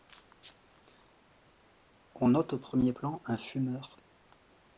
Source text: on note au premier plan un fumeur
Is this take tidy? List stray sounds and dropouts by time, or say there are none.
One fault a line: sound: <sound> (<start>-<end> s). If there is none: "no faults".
no faults